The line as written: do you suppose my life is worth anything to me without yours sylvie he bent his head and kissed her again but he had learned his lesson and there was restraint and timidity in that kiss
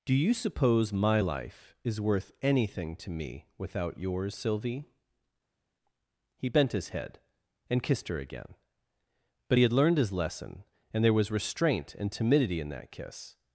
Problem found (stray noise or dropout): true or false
false